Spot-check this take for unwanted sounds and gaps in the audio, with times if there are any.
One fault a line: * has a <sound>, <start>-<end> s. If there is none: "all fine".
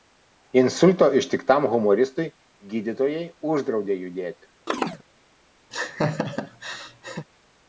* has a chirp, 4.7-5.0 s
* has a laugh, 5.7-7.3 s